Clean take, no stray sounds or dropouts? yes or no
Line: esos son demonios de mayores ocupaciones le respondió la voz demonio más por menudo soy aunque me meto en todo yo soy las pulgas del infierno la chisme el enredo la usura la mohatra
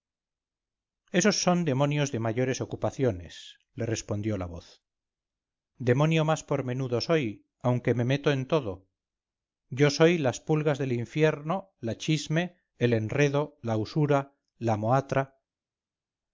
yes